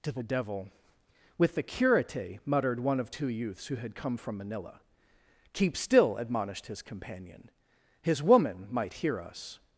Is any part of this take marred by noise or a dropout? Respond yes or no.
no